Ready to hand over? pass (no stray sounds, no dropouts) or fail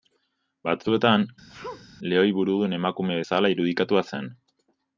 fail